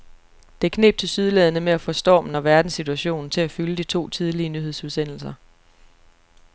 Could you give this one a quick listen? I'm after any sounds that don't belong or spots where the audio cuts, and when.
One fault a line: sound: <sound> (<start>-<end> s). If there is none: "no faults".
no faults